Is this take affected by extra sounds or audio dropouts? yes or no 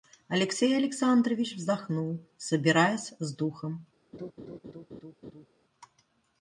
yes